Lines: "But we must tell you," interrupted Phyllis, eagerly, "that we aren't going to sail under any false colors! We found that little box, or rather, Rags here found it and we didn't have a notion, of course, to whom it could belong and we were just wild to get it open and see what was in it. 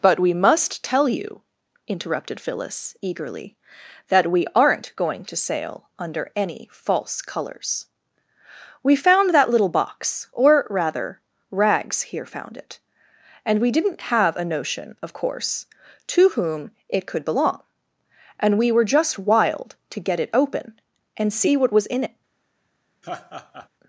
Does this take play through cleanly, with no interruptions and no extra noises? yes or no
no